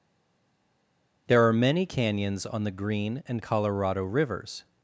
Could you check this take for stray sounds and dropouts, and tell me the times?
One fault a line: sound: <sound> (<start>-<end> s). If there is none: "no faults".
no faults